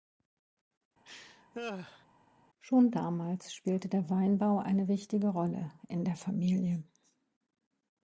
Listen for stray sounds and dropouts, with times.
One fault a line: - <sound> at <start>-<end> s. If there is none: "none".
- laugh at 1.0-2.1 s